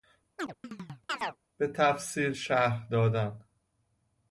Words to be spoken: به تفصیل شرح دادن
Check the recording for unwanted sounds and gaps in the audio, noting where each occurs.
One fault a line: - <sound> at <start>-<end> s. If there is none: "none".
- chirp at 0.4-1.4 s